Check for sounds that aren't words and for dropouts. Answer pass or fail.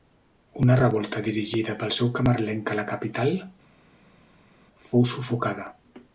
pass